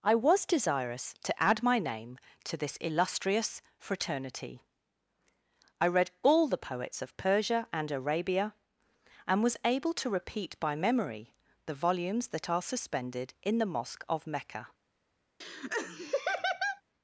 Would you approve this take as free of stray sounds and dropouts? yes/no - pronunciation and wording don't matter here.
no